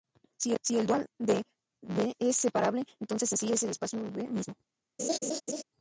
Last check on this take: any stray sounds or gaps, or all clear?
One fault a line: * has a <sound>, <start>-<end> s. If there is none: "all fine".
* has a laugh, 5.0-5.6 s